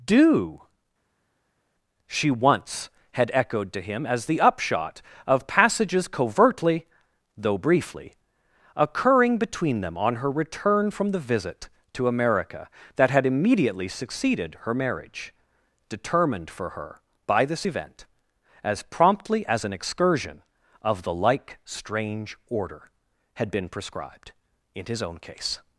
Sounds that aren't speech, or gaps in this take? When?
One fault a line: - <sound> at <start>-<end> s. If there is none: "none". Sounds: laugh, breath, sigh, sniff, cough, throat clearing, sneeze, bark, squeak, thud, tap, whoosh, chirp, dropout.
none